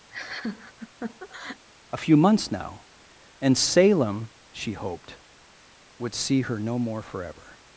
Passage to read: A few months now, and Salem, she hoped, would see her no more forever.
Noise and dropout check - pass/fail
fail